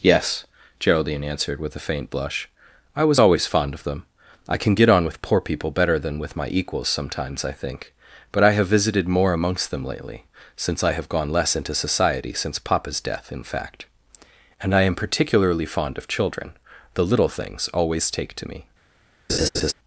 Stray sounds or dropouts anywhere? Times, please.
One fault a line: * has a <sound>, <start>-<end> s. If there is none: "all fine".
* has a laugh, 19.3-19.7 s